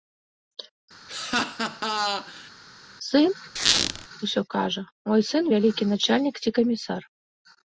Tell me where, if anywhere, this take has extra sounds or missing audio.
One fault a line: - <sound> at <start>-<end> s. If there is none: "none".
- laugh at 1.1-2.5 s
- squeak at 3.6-4.1 s